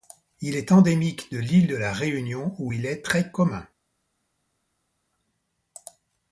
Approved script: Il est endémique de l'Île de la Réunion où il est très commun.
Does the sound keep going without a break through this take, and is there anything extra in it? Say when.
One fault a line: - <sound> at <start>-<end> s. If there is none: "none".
none